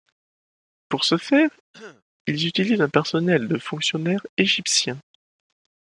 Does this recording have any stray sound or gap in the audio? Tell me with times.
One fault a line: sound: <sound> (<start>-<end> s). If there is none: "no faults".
sound: throat clearing (1.7-2.0 s)